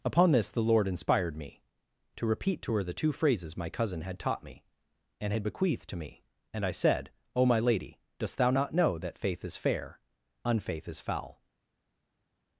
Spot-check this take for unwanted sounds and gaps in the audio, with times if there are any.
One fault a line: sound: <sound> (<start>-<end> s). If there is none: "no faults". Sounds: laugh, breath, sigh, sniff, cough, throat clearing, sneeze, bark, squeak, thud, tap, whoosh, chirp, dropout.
no faults